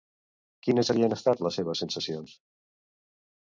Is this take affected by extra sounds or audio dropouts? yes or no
no